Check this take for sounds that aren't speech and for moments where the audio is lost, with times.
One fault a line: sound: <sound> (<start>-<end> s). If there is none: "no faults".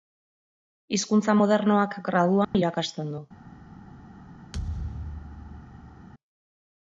sound: dropout (2.4-2.5 s)
sound: thud (4.5-6.1 s)